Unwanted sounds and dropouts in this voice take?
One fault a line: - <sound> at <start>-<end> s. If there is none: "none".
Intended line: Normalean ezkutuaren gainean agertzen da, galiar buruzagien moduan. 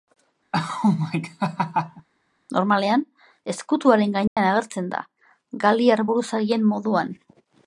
- laugh at 0.5-2.1 s
- dropout at 4.3-4.4 s